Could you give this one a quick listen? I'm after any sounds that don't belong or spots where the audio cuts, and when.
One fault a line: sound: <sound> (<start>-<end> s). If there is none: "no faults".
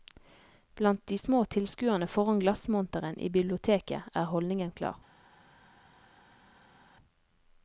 no faults